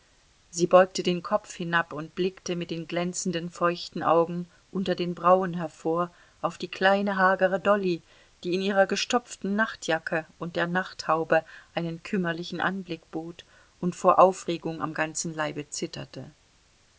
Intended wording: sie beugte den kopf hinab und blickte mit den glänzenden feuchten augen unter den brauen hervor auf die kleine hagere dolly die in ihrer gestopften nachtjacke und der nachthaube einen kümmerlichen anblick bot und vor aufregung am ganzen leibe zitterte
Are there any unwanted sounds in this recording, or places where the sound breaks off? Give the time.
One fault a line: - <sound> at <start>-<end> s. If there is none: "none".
none